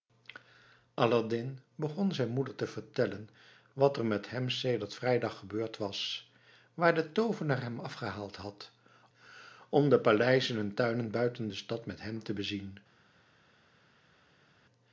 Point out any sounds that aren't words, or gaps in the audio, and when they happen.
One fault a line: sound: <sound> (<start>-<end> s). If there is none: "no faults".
no faults